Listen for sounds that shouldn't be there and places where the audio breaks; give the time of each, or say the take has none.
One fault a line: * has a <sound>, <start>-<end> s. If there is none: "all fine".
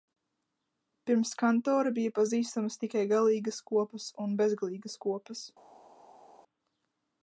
all fine